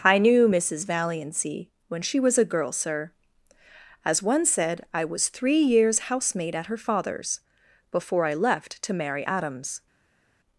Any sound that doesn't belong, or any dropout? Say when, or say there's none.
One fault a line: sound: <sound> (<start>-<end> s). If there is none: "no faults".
no faults